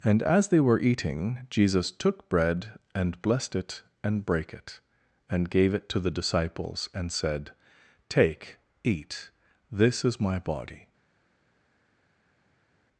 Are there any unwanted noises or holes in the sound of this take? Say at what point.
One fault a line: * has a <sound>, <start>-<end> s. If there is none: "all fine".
all fine